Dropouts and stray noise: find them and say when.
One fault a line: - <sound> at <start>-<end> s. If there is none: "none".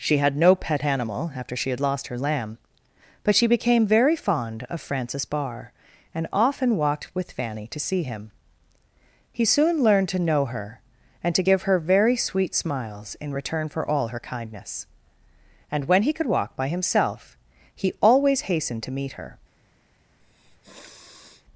- sniff at 20.2-21.5 s